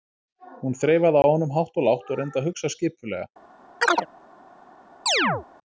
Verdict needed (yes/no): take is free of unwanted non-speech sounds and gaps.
no